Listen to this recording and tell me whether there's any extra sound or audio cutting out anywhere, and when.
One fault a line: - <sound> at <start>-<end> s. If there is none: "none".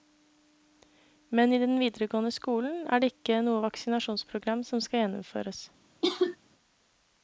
- cough at 6.0-6.4 s